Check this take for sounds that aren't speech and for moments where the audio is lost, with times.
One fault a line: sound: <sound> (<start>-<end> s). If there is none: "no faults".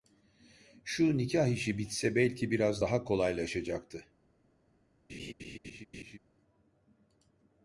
sound: laugh (5.1-6.2 s)